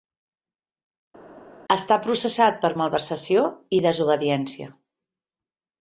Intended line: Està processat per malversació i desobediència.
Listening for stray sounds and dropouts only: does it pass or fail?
pass